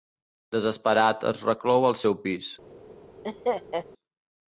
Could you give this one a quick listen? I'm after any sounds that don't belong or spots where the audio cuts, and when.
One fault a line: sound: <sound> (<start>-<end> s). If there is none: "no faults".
sound: laugh (3.2-3.9 s)